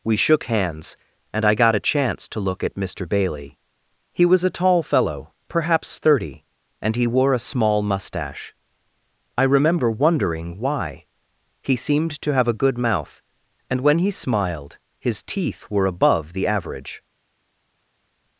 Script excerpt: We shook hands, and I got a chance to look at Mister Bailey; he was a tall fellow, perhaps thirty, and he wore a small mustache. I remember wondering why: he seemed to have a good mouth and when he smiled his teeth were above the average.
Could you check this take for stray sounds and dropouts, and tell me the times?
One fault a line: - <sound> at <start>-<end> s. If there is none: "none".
none